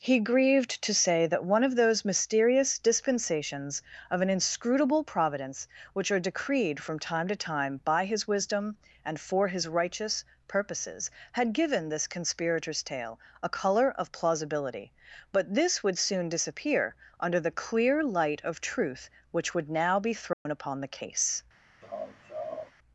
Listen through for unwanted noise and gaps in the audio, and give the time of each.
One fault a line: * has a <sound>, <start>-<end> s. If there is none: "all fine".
* has a dropout, 20.3-20.5 s
* has a laugh, 21.8-22.7 s